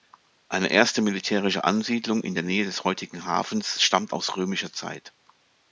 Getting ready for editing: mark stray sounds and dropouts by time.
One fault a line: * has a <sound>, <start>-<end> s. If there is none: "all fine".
all fine